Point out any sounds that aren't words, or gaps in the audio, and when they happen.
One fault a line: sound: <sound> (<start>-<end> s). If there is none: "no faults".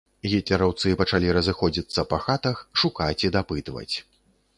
no faults